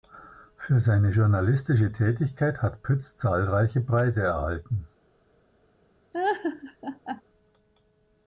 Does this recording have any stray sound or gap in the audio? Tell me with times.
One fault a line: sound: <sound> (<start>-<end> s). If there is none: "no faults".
sound: laugh (6.1-7.2 s)